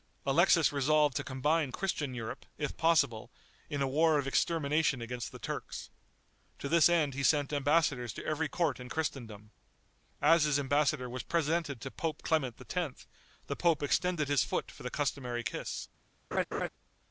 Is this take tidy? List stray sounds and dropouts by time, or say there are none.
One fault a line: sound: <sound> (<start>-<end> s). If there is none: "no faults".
sound: laugh (16.3-16.7 s)